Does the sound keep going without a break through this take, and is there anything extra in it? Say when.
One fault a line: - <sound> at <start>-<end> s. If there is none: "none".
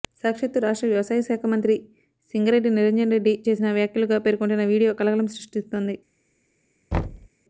- thud at 6.9-7.3 s